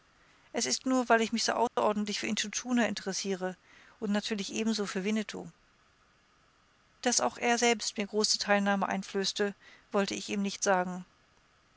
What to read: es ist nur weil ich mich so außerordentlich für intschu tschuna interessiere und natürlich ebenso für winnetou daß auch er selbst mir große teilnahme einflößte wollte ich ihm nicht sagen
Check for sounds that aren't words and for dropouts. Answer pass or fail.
fail